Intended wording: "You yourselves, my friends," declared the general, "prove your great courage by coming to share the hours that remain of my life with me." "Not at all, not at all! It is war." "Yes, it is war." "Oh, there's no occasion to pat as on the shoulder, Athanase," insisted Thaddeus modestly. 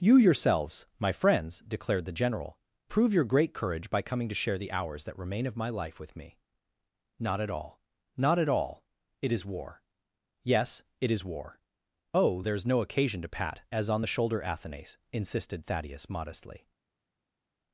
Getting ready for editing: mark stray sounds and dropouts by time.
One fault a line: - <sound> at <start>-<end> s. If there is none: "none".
none